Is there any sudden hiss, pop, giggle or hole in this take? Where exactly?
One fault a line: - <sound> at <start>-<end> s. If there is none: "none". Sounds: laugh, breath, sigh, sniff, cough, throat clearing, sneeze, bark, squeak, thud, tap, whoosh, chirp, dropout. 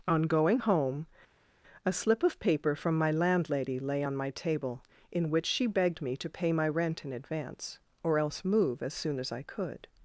none